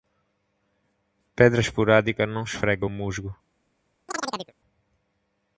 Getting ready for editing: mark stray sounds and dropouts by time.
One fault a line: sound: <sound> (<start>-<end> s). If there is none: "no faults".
sound: chirp (4.1-4.5 s)